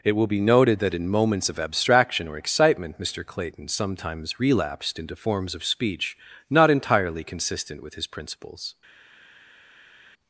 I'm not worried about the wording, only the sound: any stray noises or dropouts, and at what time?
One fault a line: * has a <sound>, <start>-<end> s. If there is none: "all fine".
all fine